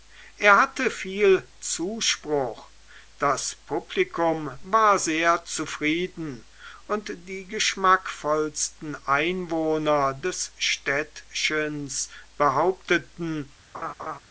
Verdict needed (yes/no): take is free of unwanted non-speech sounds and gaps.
no